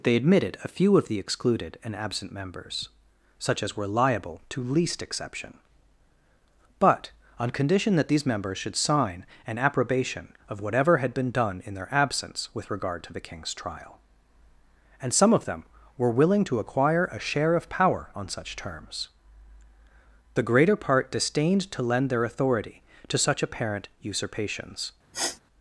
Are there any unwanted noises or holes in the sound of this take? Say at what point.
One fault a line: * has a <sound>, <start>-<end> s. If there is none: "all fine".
* has a sniff, 25.1-25.4 s